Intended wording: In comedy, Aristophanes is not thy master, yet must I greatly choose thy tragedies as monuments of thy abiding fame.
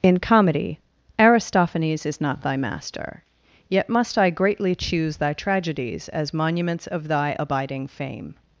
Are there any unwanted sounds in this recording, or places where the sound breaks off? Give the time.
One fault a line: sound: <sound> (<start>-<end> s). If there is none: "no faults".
no faults